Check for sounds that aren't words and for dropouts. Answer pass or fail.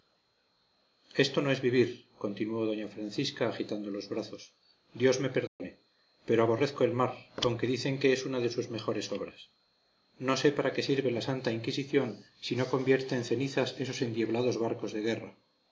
fail